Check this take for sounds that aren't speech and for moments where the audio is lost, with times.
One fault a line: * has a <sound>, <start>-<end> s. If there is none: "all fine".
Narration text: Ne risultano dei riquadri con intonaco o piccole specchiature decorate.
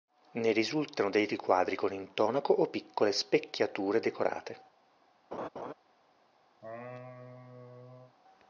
* has a laugh, 5.3-5.7 s
* has a laugh, 6.6-8.2 s